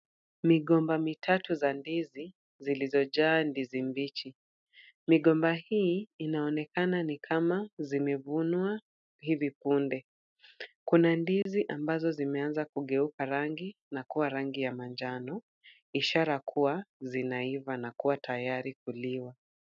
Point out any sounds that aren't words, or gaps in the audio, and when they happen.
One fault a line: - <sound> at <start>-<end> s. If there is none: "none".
- dropout at 11.4-11.5 s